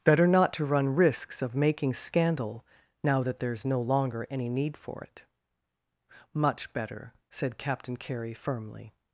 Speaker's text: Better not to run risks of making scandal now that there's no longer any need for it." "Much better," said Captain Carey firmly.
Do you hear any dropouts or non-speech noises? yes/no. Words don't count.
no